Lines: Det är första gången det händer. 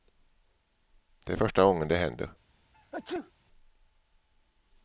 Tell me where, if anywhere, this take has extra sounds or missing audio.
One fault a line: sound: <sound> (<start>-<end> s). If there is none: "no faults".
sound: sneeze (2.7-3.3 s)